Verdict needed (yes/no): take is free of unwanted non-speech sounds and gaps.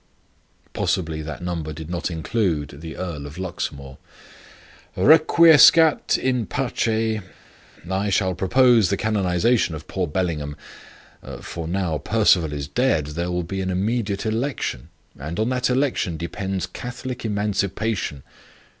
yes